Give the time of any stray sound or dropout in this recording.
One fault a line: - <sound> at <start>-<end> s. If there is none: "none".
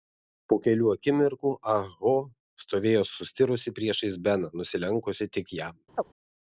- chirp at 5.9-6.0 s